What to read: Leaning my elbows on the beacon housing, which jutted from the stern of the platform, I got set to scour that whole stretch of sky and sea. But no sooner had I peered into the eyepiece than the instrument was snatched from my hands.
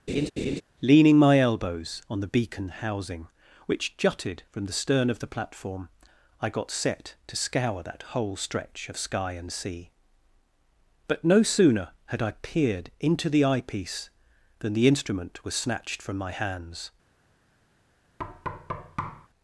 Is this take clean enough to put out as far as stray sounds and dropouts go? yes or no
no